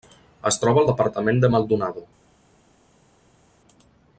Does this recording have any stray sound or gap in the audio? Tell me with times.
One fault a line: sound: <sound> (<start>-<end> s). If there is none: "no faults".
no faults